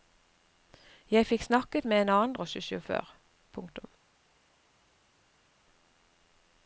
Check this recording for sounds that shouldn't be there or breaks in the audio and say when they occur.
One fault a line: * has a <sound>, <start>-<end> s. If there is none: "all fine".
all fine